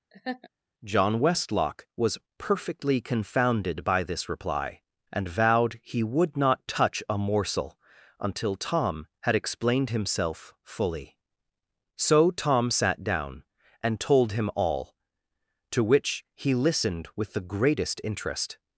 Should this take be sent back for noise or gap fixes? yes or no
yes